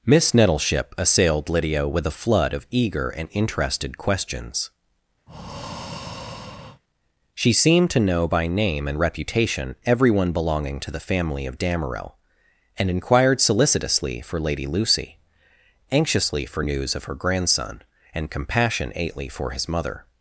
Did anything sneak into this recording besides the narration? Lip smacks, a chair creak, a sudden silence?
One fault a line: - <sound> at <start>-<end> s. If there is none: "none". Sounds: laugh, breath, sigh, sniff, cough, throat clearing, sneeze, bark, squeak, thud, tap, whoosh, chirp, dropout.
- breath at 5.3-6.8 s